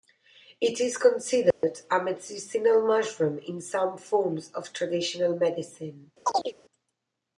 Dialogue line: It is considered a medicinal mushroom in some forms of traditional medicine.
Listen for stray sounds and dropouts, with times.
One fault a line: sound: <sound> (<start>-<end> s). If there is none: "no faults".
sound: dropout (1.5-1.6 s)
sound: chirp (6.2-6.5 s)